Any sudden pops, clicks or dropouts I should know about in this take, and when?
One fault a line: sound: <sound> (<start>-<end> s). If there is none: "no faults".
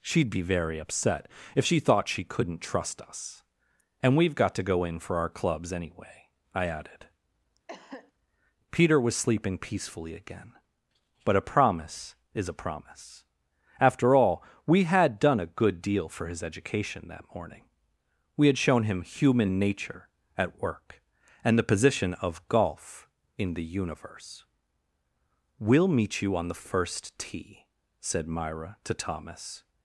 sound: cough (7.7-8.1 s)